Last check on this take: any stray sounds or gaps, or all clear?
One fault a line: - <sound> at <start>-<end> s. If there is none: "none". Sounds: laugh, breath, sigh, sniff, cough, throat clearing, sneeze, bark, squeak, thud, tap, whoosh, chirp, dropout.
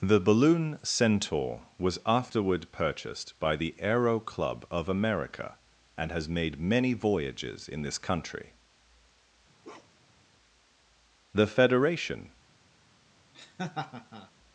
- bark at 9.6-10.2 s
- laugh at 13.3-14.3 s